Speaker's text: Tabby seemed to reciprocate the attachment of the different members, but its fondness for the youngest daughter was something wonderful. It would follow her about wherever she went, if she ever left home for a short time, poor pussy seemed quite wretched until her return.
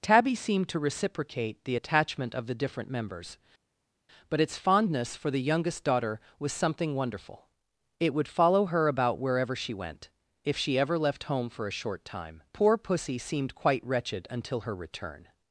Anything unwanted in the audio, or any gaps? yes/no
no